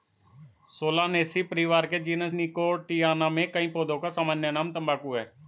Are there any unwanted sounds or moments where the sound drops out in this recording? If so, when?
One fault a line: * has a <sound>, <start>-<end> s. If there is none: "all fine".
all fine